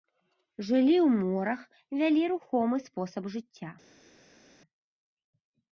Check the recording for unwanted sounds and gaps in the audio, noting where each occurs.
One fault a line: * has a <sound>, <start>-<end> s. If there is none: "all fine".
all fine